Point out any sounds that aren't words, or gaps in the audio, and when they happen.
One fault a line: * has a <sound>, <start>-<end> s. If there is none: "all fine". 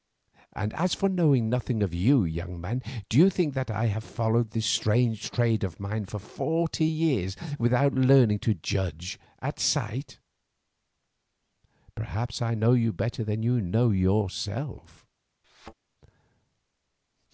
* has a thud, 15.4-15.7 s